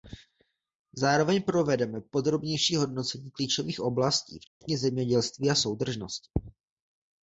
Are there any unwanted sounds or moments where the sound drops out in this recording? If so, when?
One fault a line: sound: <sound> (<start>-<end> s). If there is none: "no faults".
sound: dropout (4.5-4.6 s)